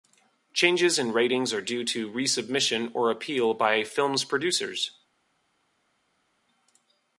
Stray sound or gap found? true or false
false